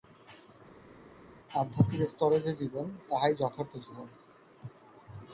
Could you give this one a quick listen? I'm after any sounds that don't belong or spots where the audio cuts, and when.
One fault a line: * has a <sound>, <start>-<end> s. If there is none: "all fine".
all fine